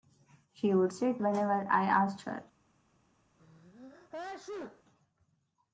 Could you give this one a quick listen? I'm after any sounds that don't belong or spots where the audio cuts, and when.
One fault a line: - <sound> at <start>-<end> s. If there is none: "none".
- sneeze at 3.4-4.8 s